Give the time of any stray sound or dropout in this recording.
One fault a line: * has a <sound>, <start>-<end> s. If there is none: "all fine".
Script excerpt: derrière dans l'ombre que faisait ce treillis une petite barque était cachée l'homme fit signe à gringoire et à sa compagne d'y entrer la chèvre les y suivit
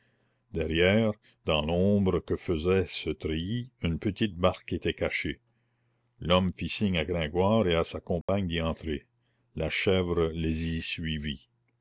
* has a dropout, 8.2-8.3 s